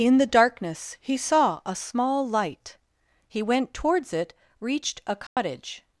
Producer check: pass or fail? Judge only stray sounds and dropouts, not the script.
fail